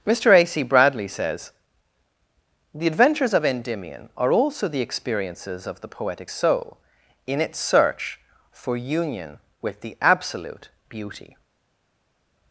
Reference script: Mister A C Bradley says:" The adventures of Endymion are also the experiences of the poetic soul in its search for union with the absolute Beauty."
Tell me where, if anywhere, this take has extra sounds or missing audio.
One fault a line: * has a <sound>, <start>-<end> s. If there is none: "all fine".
all fine